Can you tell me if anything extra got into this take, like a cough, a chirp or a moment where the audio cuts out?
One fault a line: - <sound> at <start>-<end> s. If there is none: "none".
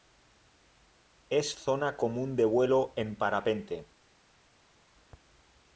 none